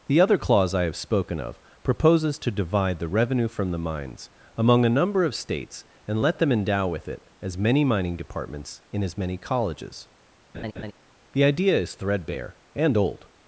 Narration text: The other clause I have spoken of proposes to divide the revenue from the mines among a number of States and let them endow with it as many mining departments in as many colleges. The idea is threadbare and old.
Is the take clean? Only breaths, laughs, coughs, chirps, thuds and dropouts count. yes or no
no